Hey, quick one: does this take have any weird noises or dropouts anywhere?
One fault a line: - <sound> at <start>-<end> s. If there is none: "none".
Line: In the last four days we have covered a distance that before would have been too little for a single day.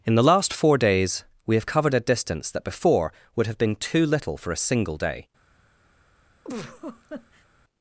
- laugh at 6.4-7.5 s